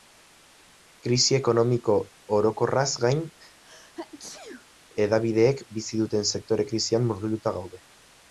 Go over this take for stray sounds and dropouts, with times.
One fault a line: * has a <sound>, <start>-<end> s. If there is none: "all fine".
* has a sneeze, 3.6-4.7 s